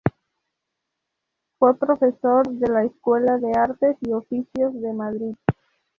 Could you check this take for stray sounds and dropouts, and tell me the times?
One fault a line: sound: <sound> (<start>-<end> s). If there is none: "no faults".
no faults